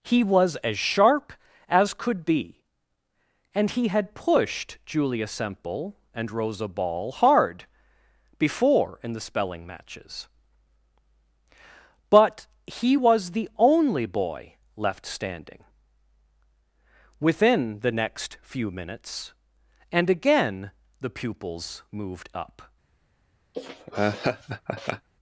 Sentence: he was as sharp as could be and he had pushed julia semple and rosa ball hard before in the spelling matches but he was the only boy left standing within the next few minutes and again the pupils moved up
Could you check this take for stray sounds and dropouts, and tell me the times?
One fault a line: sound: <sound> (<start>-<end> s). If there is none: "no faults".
sound: laugh (23.5-25.1 s)